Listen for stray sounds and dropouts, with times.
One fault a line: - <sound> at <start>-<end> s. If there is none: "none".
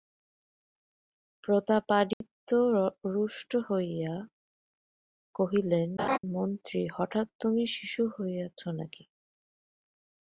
- dropout at 2.1-2.2 s
- laugh at 6.0-6.2 s